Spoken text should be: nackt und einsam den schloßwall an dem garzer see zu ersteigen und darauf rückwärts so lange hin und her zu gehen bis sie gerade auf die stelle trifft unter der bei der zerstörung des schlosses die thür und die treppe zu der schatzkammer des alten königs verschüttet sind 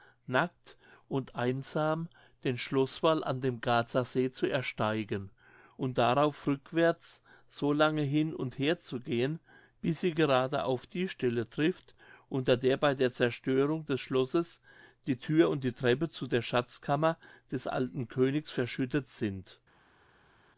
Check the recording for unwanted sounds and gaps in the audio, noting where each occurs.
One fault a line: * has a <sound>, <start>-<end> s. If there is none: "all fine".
all fine